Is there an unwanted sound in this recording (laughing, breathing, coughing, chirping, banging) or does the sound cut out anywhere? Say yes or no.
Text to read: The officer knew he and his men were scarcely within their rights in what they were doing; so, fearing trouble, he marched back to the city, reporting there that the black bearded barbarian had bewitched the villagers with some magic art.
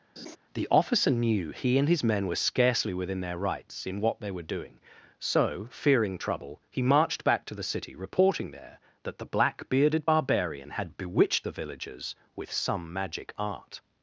yes